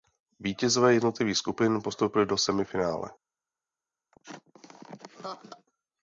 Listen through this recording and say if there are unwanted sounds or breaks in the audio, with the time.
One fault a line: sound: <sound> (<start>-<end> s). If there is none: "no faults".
sound: laugh (4.1-5.7 s)